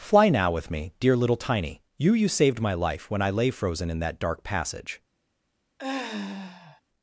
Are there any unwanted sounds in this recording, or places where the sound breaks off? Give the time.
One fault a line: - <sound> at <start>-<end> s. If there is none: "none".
- sigh at 5.8-6.8 s